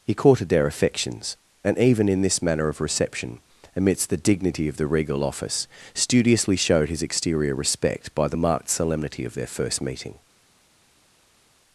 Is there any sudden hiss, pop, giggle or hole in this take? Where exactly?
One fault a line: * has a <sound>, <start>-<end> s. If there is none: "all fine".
all fine